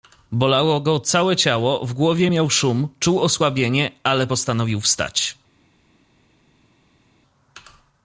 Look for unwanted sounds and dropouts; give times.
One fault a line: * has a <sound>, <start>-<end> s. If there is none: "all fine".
all fine